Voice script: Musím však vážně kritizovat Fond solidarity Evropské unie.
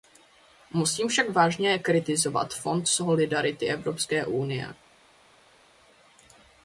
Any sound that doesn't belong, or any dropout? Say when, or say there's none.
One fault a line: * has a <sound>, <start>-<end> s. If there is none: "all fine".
all fine